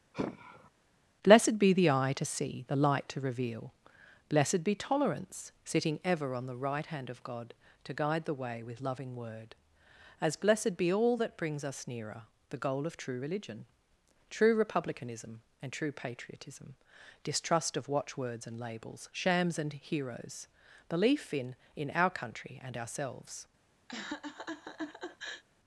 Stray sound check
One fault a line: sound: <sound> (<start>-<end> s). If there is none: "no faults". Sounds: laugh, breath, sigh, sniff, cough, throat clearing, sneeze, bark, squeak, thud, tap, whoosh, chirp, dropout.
sound: sigh (0.1-0.7 s)
sound: laugh (23.9-25.4 s)